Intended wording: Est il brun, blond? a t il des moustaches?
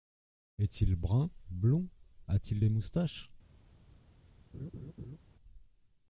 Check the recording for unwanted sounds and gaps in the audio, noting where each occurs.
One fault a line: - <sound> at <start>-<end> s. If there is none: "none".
- laugh at 4.5-5.2 s